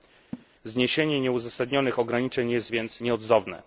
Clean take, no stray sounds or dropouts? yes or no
no